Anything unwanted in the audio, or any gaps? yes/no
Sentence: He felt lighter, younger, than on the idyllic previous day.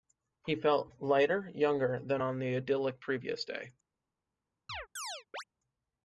yes